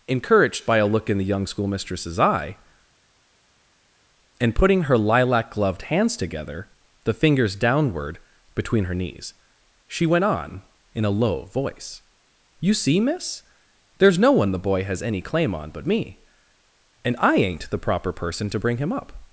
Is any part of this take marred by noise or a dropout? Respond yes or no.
no